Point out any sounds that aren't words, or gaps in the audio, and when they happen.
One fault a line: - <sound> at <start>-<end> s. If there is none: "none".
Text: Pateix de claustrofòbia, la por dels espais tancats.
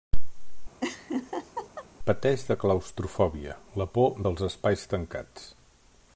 - laugh at 0.8-1.9 s